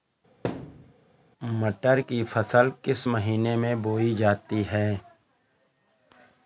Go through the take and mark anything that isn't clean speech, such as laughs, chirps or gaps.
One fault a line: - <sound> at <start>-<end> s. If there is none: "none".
- thud at 0.4-0.9 s